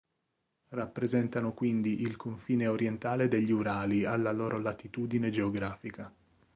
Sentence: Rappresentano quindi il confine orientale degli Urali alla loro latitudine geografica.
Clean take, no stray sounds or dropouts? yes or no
yes